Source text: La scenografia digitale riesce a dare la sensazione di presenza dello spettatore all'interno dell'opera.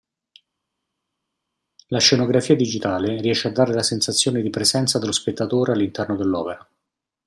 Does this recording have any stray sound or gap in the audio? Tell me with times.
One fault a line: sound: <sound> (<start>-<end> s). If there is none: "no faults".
no faults